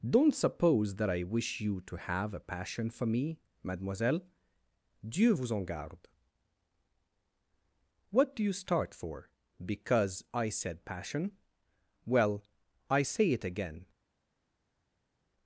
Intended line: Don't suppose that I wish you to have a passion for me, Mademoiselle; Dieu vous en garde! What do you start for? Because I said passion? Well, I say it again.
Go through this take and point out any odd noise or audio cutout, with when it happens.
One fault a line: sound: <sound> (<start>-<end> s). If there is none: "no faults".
no faults